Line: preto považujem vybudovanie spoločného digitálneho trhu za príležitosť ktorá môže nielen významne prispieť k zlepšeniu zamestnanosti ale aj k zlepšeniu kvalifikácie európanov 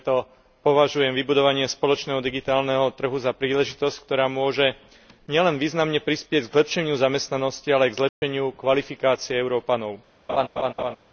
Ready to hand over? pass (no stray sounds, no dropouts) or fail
fail